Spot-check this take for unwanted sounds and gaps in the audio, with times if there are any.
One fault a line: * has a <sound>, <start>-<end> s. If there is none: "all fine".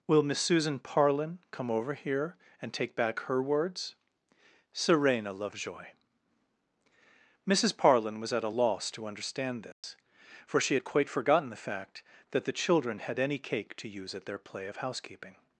* has a dropout, 9.7-9.8 s